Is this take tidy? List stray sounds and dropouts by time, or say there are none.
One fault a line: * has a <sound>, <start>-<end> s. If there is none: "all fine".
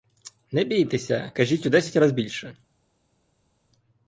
all fine